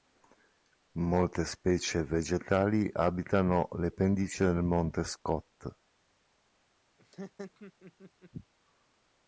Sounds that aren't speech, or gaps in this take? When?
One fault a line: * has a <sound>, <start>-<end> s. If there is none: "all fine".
* has a laugh, 7.0-8.3 s